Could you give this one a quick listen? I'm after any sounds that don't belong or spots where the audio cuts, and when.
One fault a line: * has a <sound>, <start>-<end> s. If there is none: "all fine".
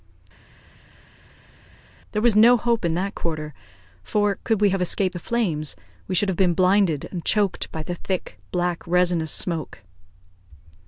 all fine